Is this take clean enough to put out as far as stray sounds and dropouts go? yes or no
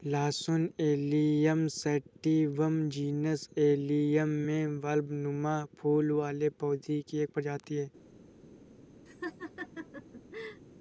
no